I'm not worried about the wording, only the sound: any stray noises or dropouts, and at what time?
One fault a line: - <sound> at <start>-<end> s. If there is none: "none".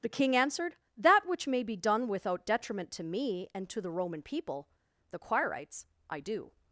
none